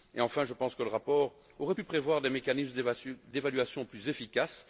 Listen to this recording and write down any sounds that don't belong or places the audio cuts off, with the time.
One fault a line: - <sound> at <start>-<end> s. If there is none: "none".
none